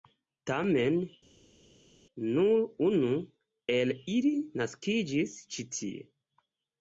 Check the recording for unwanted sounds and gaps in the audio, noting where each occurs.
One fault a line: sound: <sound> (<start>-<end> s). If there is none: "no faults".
no faults